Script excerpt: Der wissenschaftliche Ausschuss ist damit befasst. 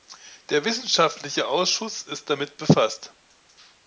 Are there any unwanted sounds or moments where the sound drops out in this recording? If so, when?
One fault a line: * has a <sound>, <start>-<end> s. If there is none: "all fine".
all fine